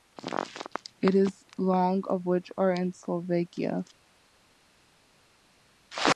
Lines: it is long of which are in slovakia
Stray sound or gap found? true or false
false